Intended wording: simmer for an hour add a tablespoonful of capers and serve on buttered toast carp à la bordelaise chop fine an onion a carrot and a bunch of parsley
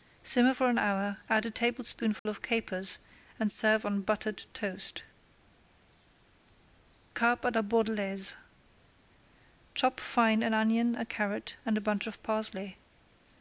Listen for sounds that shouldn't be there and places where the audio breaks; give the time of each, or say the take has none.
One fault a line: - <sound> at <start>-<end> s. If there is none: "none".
- dropout at 2.2-2.3 s